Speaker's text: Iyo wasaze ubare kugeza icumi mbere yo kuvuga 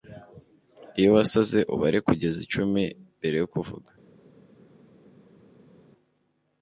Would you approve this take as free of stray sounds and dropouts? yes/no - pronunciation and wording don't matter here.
yes